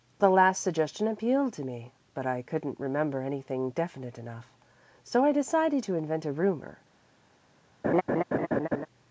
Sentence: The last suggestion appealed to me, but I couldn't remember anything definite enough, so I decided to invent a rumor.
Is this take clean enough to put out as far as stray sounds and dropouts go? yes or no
no